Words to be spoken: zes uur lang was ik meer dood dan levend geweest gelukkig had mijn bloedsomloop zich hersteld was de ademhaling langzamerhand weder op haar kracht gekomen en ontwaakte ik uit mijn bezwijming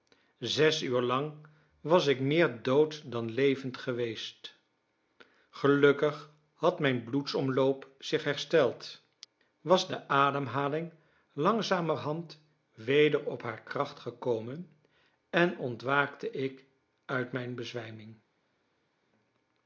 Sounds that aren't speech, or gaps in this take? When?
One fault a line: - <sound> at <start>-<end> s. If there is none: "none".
none